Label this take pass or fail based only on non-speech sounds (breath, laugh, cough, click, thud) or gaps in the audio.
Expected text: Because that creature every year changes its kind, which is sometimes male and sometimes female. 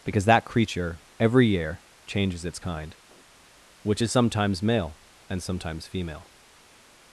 pass